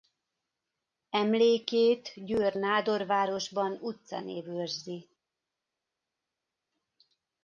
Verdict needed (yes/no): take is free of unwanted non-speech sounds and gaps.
yes